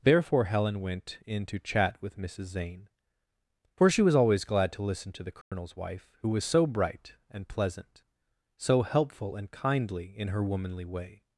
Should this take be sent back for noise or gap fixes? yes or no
yes